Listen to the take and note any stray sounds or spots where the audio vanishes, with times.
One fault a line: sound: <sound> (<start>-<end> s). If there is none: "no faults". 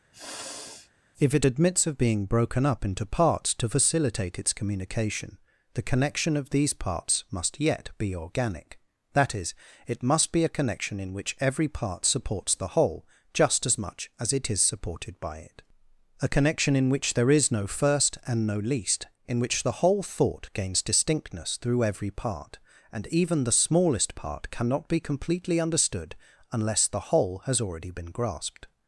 sound: sniff (0.1-0.9 s)